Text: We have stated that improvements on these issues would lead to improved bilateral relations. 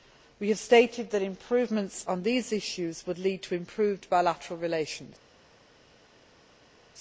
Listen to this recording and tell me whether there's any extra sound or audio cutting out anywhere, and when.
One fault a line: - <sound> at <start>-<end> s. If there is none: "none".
none